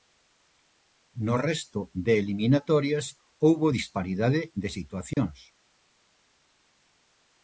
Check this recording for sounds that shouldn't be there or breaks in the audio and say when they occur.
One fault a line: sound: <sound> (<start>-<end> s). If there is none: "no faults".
sound: dropout (5.1-5.2 s)